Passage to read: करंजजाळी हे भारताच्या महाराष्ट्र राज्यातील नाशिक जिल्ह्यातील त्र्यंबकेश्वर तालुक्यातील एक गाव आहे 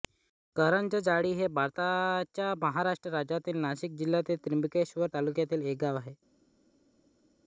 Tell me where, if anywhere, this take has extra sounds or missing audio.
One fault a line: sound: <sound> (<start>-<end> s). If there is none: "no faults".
no faults